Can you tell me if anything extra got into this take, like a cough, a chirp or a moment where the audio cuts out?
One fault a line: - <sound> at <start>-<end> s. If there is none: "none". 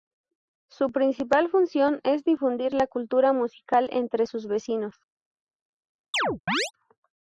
- chirp at 6.1-6.7 s